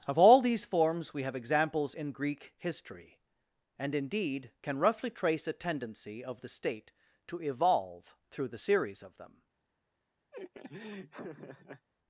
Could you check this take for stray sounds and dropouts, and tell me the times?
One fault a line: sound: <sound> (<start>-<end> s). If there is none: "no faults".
sound: laugh (10.3-11.9 s)